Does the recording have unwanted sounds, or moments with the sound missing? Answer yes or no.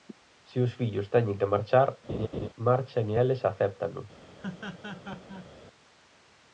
yes